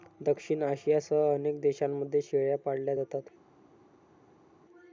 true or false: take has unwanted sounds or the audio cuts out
false